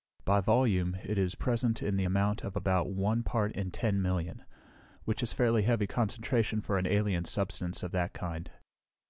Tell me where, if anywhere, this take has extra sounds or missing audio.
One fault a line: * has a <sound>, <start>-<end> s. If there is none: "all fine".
all fine